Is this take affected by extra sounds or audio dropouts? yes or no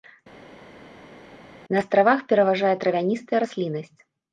no